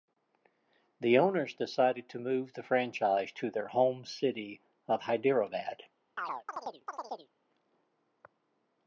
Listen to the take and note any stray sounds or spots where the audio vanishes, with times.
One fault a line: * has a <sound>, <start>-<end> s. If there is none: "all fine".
* has a chirp, 6.2-7.3 s